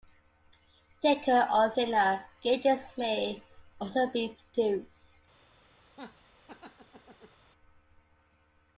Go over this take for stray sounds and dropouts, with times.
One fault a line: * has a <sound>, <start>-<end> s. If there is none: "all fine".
* has a laugh, 5.9-7.4 s